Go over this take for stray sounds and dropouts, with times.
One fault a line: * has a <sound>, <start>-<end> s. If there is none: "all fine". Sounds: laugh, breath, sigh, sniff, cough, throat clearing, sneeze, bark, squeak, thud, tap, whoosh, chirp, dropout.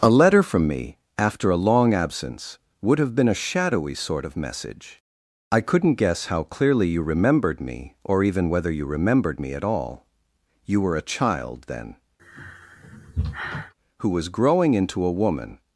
* has a sigh, 12.2-13.7 s